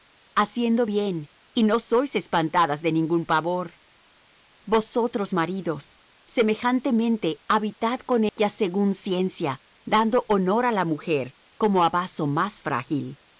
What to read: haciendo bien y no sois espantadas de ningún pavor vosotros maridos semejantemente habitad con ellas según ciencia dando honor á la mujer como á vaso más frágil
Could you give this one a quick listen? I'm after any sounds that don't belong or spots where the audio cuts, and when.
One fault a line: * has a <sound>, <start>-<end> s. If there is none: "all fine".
* has a dropout, 8.3-8.4 s